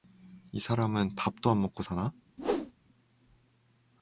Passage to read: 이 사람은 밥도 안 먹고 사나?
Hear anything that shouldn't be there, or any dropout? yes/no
yes